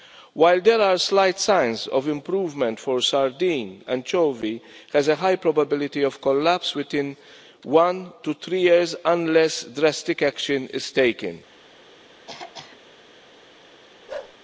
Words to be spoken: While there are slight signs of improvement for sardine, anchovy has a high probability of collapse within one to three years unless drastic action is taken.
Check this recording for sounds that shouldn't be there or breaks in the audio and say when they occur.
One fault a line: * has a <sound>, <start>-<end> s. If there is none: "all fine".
* has a throat clearing, 12.3-12.8 s
* has a bark, 14.1-14.4 s